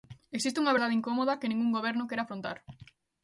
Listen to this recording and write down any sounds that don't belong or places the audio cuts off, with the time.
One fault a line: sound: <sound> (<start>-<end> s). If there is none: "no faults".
no faults